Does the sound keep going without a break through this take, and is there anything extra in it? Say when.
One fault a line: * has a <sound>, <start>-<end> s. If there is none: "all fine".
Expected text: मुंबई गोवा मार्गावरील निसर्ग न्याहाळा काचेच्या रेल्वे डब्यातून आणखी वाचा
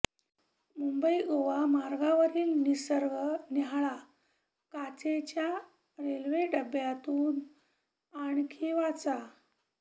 all fine